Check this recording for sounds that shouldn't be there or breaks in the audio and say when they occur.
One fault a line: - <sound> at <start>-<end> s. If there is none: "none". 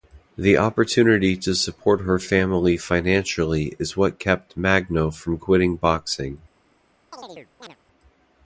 - chirp at 7.1-7.8 s